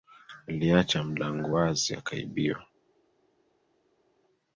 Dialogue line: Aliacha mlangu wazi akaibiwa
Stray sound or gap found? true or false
false